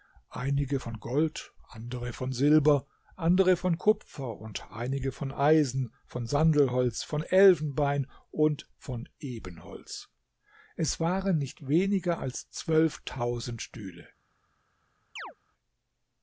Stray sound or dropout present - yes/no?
yes